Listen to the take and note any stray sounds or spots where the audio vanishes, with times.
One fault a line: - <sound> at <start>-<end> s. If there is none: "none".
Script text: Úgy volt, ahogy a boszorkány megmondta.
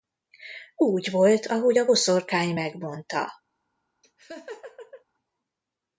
- laugh at 4.0-5.0 s